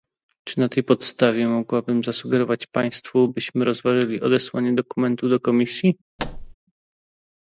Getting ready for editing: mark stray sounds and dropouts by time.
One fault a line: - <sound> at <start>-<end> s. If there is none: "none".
- thud at 6.2-6.5 s